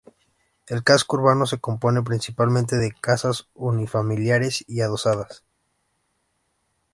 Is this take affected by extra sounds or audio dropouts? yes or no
no